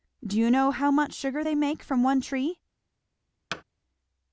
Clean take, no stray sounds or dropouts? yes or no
no